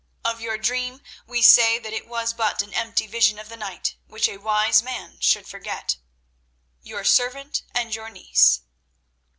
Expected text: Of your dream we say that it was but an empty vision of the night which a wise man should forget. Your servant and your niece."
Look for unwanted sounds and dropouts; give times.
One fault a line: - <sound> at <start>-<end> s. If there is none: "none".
none